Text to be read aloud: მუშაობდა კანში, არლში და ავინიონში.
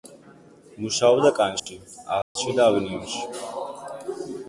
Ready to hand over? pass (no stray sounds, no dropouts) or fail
fail